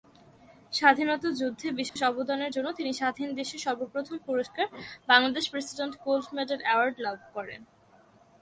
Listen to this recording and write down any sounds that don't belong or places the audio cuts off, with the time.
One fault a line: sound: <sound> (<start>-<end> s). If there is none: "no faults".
sound: dropout (1.9-2.0 s)